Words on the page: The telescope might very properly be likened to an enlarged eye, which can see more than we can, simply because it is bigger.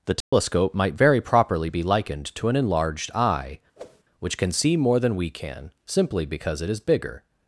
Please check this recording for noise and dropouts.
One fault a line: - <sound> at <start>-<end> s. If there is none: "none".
- dropout at 0.2-0.3 s
- whoosh at 3.8-4.0 s